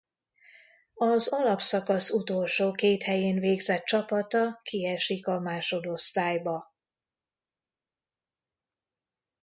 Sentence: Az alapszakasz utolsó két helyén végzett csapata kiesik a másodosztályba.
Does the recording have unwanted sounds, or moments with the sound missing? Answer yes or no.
no